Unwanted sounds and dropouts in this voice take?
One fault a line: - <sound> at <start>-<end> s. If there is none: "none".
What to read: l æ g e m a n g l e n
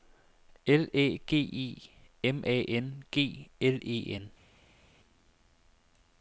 none